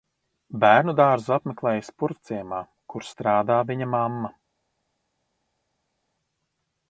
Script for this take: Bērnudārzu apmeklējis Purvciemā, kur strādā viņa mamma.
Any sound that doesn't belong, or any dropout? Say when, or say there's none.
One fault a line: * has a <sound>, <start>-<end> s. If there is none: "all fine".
all fine